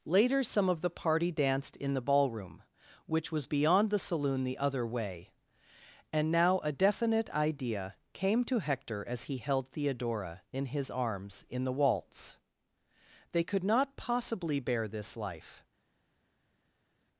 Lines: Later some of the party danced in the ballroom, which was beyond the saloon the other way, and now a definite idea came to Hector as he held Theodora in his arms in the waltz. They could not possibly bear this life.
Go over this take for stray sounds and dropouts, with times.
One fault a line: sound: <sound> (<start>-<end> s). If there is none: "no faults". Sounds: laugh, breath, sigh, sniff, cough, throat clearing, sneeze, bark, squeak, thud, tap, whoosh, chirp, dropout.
no faults